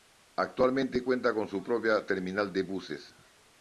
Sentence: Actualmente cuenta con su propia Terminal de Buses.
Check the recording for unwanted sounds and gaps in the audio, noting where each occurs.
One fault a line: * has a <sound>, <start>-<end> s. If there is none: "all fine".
all fine